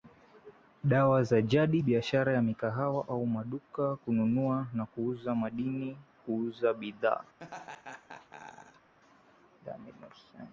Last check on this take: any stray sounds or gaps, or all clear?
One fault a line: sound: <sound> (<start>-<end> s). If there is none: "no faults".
sound: laugh (7.4-8.9 s)